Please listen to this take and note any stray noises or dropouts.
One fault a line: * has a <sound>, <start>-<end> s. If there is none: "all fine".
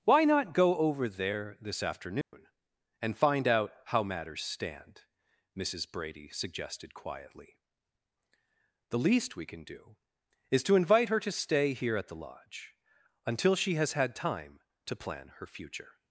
* has a dropout, 2.2-2.3 s